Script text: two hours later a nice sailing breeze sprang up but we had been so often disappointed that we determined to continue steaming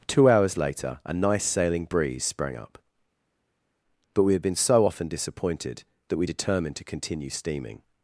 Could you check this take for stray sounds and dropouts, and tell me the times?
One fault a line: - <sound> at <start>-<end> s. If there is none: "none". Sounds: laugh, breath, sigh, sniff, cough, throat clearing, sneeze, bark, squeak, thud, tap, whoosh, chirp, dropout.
none